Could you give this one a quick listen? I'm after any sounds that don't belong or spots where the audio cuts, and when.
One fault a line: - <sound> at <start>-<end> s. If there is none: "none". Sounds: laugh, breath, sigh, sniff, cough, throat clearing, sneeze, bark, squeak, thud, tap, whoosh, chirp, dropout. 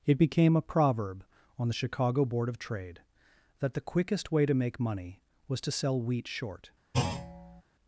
- thud at 6.9-7.6 s